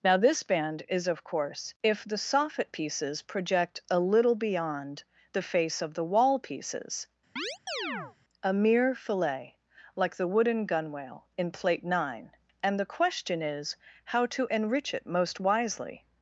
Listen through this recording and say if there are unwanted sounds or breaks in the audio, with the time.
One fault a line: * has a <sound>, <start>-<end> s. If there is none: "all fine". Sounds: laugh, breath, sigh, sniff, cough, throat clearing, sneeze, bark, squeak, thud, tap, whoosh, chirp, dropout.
* has a chirp, 7.4-8.2 s